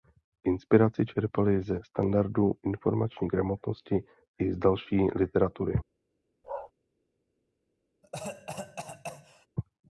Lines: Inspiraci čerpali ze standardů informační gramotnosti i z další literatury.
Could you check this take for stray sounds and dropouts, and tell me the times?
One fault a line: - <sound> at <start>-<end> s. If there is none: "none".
- bark at 6.4-6.7 s
- cough at 8.0-9.5 s